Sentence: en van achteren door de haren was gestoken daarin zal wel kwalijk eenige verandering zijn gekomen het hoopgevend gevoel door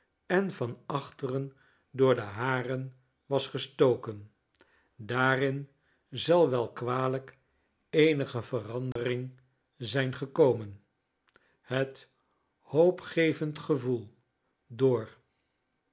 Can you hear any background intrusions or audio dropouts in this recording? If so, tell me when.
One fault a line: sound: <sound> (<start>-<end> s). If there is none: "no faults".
sound: dropout (8.9-9.0 s)